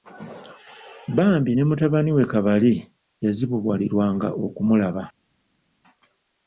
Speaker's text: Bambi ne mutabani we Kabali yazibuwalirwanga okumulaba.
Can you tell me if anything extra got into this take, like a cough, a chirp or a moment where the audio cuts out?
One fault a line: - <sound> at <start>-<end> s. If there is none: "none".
none